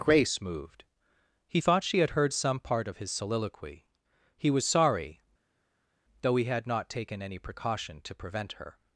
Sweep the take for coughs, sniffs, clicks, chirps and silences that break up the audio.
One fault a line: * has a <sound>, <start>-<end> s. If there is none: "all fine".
all fine